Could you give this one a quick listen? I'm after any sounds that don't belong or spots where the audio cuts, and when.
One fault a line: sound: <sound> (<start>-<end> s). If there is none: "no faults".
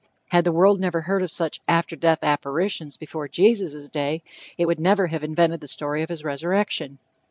no faults